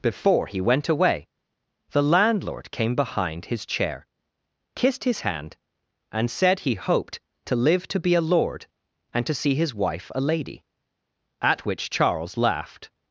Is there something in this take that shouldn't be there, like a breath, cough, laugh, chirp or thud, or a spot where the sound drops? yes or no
no